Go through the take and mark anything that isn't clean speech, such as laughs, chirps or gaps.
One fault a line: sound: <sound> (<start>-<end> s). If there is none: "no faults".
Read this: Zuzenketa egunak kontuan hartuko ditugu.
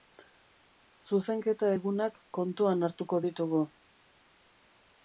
no faults